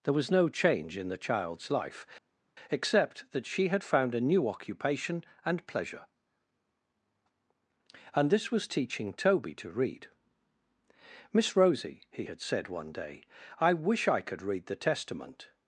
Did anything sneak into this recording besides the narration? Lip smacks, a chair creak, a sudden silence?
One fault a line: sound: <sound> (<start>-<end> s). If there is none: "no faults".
no faults